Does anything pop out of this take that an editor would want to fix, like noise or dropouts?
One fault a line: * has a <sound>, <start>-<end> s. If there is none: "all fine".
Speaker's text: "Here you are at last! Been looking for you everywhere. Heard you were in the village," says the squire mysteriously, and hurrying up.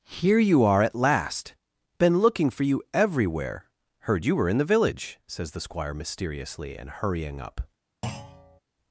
* has a thud, 8.0-8.6 s